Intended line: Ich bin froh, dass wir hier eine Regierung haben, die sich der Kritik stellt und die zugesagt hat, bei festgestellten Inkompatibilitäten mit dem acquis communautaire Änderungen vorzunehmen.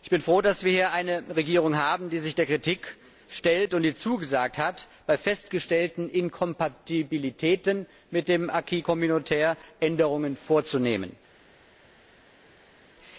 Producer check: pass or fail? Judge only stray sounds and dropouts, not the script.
pass